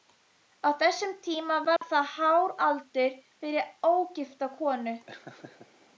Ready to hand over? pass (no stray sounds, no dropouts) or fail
fail